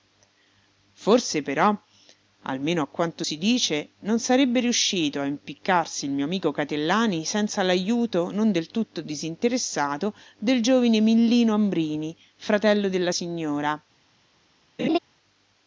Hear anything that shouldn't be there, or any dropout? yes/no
yes